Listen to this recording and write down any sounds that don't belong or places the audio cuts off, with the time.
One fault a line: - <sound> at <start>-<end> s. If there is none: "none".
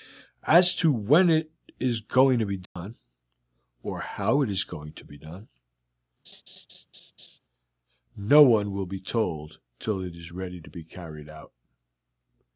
- dropout at 2.7-2.8 s
- laugh at 6.2-7.4 s